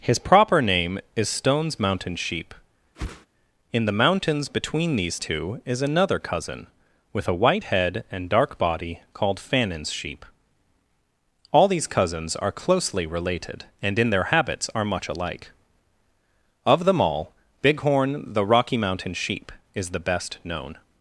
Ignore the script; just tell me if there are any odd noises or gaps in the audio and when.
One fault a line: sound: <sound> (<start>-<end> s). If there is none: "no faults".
sound: whoosh (2.9-3.3 s)